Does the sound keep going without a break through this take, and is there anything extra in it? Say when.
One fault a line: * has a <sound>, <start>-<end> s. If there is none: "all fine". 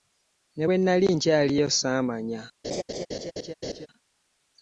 * has a laugh, 2.6-3.9 s